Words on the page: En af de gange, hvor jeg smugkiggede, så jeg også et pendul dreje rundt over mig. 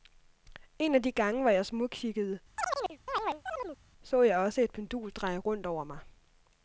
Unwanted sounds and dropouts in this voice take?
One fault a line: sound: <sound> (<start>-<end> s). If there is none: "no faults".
sound: chirp (2.6-3.8 s)